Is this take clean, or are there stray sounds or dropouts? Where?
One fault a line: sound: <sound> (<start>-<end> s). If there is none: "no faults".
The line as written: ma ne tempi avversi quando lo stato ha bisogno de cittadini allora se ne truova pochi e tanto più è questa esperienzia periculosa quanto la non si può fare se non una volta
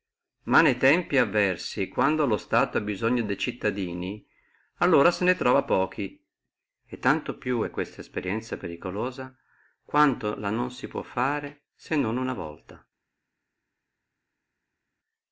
no faults